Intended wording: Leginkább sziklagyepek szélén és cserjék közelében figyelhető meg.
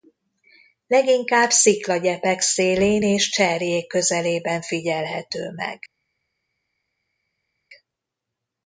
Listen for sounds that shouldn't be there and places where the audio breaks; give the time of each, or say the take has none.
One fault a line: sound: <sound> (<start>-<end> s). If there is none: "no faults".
no faults